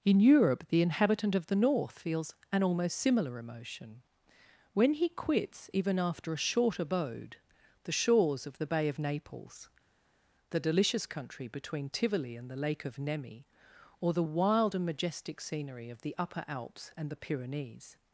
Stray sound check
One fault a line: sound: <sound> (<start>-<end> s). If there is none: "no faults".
no faults